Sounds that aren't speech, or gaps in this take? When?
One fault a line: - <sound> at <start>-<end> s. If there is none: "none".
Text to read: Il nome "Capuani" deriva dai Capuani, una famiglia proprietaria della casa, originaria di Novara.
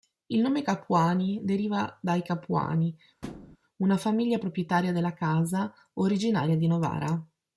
- thud at 3.2-3.6 s